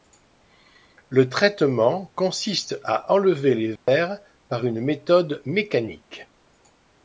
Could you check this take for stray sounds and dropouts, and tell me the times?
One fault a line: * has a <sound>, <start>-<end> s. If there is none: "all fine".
* has a dropout, 3.8-3.9 s